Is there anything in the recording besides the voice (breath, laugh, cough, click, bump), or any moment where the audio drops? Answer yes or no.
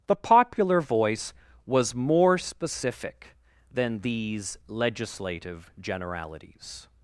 no